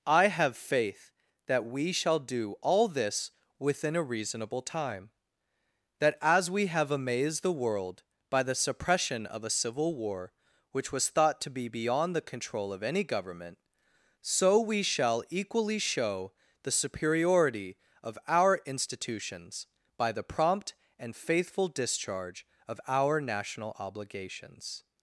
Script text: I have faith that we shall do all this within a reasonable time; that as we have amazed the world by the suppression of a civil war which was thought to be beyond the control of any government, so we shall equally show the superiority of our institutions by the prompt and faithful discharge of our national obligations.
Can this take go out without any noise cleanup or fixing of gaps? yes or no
yes